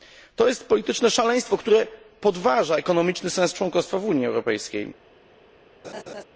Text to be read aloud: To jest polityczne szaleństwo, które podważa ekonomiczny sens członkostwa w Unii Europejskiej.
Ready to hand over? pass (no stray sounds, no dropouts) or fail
fail